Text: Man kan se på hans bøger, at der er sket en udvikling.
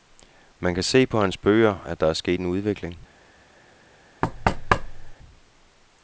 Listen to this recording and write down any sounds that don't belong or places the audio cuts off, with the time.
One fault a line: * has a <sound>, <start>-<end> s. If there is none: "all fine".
* has a thud, 4.2-5.1 s